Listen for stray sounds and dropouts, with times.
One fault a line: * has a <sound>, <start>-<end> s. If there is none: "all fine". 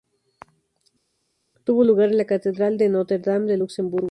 all fine